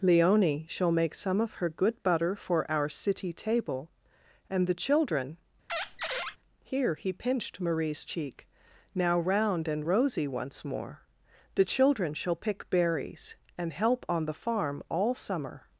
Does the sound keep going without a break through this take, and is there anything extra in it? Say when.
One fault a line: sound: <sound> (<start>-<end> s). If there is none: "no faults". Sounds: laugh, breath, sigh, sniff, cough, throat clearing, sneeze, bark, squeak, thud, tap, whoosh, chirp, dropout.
sound: squeak (5.7-6.4 s)